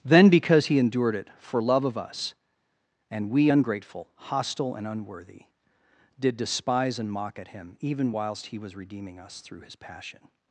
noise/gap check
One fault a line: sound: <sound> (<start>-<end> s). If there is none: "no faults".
no faults